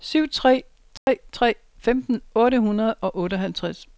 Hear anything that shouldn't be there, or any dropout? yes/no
yes